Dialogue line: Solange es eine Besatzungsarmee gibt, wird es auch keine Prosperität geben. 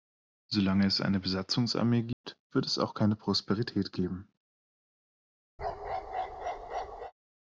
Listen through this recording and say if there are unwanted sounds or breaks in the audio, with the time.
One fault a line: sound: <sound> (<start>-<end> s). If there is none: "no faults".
sound: dropout (2.1-2.2 s)
sound: bark (5.6-7.1 s)